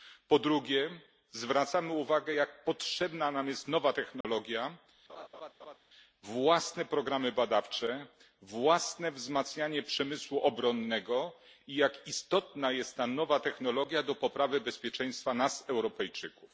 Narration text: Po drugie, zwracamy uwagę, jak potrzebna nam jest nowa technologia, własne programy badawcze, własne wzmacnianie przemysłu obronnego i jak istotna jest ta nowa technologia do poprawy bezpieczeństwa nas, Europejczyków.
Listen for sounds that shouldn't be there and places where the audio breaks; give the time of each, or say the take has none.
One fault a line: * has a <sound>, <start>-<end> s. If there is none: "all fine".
* has a dropout, 4.2-4.2 s
* has a laugh, 5.1-5.8 s